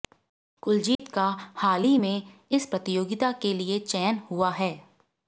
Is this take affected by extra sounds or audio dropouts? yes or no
yes